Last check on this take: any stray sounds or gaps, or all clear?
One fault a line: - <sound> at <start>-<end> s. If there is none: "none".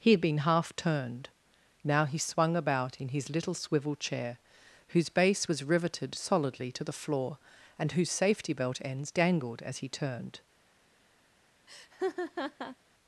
- laugh at 11.7-12.8 s